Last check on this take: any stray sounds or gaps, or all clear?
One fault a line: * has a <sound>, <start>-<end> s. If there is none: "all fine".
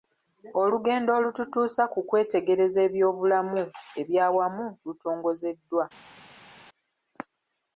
all fine